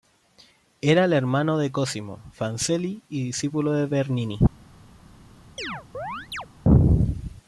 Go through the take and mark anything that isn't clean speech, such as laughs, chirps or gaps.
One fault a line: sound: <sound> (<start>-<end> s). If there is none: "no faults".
sound: chirp (5.6-6.5 s)